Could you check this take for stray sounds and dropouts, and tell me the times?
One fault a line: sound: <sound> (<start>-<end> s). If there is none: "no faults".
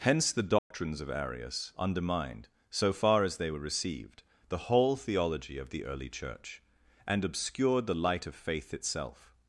sound: dropout (0.6-0.7 s)